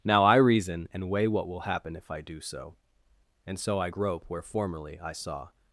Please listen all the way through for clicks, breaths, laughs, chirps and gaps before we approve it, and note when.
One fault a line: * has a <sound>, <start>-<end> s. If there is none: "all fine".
all fine